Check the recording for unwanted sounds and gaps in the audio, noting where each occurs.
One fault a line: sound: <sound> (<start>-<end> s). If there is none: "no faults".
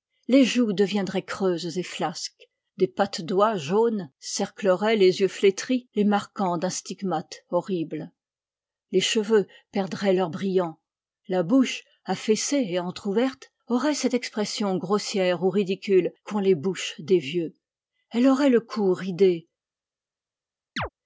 sound: chirp (20.8-20.9 s)